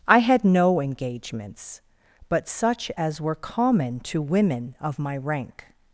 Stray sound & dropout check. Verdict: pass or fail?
pass